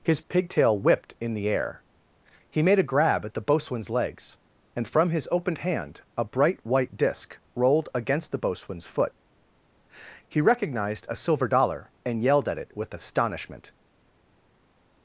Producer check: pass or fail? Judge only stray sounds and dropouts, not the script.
pass